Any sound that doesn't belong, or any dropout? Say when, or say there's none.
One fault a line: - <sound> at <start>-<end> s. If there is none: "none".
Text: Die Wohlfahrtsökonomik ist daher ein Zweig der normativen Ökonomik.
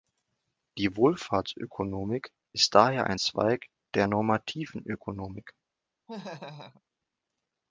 - laugh at 6.1-6.8 s